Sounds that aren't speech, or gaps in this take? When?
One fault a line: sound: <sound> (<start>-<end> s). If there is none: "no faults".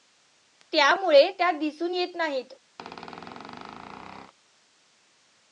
sound: squeak (2.8-4.3 s)